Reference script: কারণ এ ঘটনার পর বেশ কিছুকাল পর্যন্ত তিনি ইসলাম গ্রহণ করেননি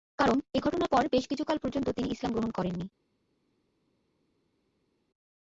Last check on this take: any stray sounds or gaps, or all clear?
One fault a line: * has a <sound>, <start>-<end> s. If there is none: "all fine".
all fine